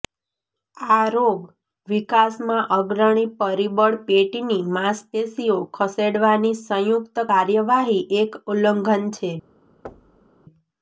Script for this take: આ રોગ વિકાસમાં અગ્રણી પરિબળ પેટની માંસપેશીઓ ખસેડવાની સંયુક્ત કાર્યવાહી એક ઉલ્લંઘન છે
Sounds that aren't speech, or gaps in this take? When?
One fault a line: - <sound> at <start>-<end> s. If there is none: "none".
- thud at 9.8-10.3 s